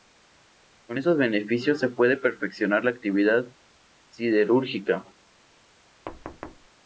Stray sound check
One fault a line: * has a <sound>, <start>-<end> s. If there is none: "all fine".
* has a thud, 6.1-6.7 s